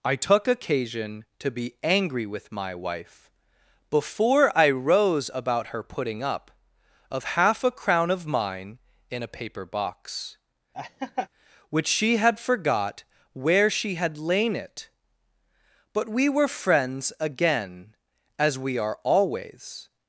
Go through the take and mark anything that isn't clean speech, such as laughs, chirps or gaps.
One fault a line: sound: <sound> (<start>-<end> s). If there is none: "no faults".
sound: laugh (10.7-11.3 s)